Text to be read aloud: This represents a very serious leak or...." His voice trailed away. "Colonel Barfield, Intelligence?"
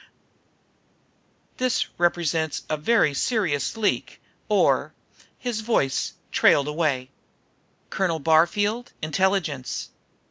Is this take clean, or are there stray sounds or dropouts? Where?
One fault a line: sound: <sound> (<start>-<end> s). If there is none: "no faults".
no faults